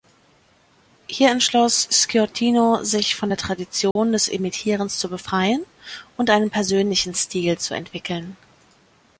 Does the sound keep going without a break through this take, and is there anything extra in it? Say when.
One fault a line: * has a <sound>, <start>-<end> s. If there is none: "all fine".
* has a dropout, 3.9-4.0 s